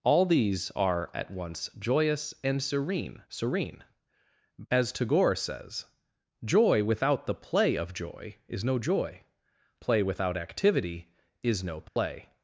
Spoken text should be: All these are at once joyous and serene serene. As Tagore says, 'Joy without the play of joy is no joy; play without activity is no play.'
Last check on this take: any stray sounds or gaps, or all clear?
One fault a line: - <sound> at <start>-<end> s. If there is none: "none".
- dropout at 11.9-12.0 s